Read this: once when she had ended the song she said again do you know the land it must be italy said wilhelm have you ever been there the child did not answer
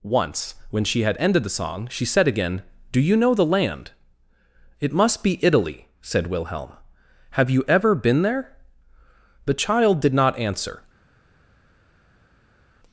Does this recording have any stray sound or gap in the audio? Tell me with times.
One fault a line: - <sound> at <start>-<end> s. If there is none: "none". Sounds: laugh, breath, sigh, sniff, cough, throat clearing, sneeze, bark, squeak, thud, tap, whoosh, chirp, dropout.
none